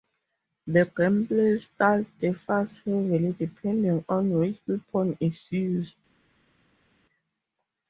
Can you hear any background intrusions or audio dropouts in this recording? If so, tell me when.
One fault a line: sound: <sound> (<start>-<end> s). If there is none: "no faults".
no faults